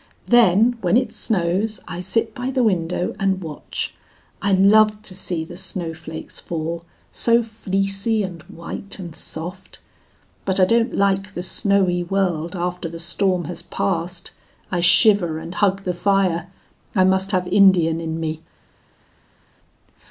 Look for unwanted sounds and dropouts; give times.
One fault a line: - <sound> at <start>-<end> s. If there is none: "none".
none